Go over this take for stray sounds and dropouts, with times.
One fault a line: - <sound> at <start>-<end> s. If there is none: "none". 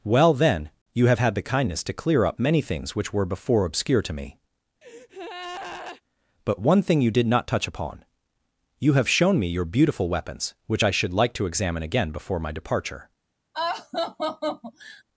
- breath at 4.8-6.0 s
- laugh at 13.5-15.0 s